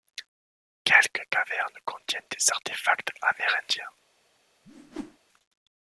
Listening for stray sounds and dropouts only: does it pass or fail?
fail